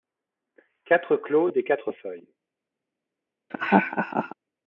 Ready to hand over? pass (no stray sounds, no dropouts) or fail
fail